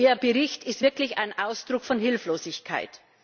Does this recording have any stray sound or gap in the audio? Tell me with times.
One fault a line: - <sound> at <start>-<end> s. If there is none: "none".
none